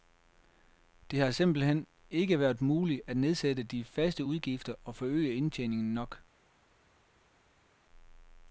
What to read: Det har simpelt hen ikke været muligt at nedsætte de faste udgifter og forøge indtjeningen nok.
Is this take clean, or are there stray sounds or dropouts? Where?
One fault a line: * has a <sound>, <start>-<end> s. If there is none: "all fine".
all fine